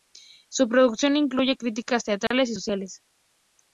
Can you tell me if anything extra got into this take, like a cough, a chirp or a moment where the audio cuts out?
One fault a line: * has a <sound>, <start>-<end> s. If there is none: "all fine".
* has a dropout, 2.3-2.3 s